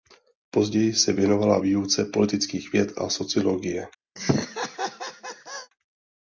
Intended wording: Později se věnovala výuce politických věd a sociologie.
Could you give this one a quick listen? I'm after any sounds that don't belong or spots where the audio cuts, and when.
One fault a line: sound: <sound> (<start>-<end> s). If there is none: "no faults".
sound: laugh (4.2-5.7 s)